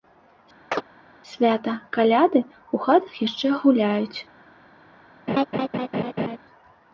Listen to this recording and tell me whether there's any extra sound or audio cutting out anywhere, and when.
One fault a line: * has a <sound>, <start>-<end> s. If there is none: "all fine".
* has a chirp, 0.7-0.8 s
* has a laugh, 5.3-6.4 s